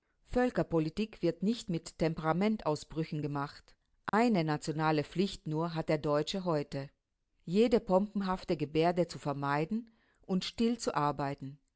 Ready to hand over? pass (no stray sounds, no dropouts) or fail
fail